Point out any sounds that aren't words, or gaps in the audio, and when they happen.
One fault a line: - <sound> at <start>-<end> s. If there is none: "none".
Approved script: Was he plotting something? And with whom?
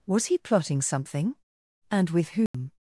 - dropout at 2.5-2.5 s